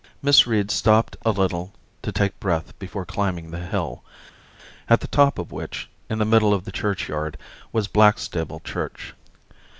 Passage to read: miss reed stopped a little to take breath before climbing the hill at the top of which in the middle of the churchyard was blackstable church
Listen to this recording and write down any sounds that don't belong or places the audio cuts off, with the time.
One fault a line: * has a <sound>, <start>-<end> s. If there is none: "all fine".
all fine